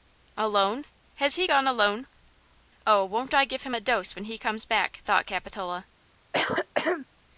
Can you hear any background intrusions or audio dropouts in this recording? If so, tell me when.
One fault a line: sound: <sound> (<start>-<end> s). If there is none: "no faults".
sound: throat clearing (6.3-7.1 s)